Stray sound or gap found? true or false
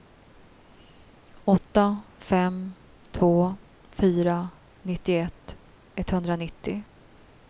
false